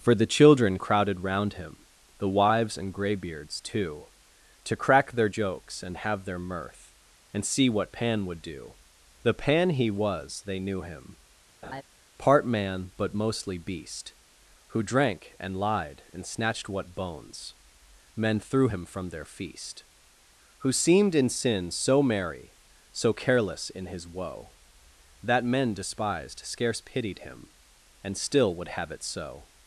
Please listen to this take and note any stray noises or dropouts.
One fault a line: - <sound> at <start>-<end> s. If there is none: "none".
- laugh at 11.6-11.8 s